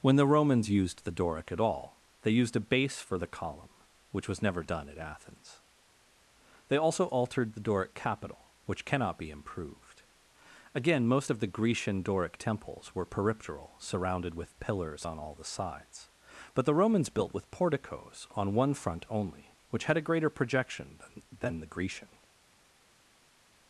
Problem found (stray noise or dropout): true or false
false